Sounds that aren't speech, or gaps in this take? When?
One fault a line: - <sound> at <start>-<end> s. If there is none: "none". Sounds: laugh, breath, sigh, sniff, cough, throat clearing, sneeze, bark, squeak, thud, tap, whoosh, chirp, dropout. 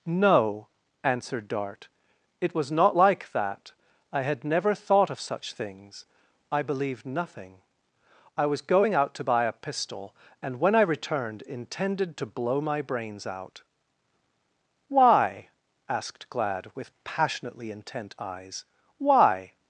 none